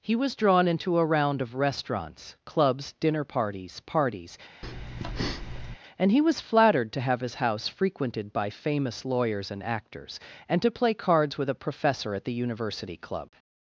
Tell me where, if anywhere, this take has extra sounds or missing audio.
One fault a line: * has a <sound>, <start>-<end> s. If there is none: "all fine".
* has a breath, 4.6-5.8 s